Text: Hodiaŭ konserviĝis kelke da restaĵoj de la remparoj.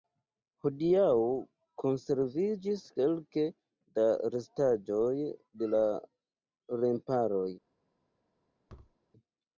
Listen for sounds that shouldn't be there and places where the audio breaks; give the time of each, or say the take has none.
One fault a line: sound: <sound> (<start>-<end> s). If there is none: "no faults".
sound: thud (8.7-9.0 s)